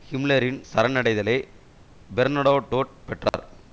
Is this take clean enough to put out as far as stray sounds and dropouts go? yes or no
no